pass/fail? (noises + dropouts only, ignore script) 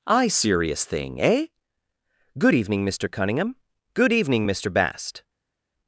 pass